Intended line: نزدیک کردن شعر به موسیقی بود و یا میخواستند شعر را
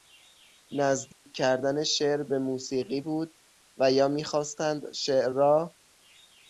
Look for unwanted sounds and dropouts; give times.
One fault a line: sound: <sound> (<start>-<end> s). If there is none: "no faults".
sound: dropout (1.1-1.3 s)